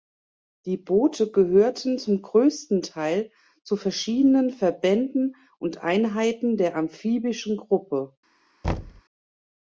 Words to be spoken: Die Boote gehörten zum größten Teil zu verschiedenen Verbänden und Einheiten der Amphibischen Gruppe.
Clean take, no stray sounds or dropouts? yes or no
no